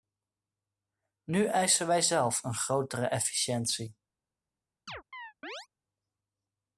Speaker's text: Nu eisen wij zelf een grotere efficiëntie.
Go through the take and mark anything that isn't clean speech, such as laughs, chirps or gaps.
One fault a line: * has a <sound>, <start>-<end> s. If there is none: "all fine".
* has a chirp, 4.9-5.7 s